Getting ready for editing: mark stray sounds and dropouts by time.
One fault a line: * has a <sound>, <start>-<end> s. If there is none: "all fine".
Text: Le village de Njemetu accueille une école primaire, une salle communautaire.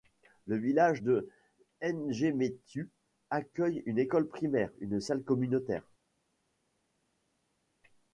all fine